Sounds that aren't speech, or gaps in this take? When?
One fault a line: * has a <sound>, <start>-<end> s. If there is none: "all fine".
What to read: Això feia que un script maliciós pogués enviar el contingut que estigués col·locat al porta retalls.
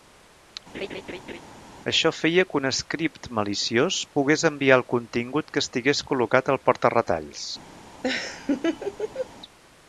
* has a laugh, 0.7-1.4 s
* has a laugh, 8.0-9.3 s